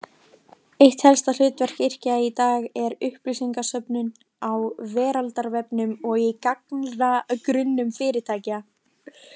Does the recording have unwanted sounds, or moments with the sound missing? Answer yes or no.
no